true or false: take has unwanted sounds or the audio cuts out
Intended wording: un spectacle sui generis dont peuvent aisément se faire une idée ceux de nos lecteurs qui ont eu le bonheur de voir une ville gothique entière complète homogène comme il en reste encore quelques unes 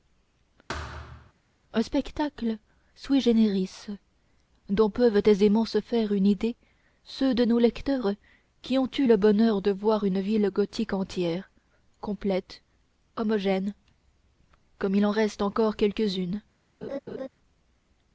true